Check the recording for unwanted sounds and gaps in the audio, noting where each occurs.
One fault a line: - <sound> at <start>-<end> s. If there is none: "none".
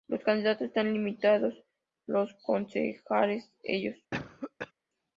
- cough at 4.1-4.7 s